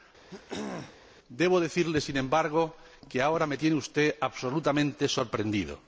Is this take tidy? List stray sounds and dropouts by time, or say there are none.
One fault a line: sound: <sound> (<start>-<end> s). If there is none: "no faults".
sound: throat clearing (0.3-1.0 s)